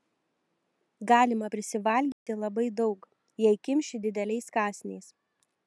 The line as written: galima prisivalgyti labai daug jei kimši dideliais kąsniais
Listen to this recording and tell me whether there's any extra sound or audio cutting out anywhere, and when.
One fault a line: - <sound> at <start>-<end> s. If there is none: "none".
- dropout at 2.1-2.3 s